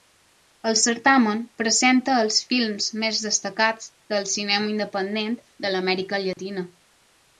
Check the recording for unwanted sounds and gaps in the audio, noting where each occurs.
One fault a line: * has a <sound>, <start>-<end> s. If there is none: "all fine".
* has a dropout, 6.3-6.4 s